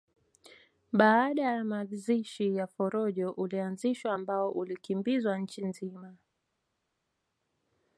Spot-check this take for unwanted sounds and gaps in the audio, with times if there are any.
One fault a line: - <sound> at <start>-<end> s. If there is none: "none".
none